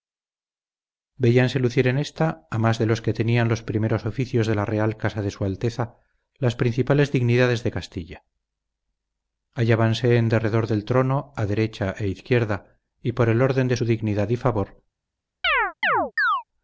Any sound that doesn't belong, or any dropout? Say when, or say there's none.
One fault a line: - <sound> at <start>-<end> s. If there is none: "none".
- chirp at 15.4-16.4 s